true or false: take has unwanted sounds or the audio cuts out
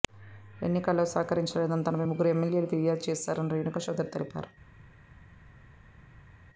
false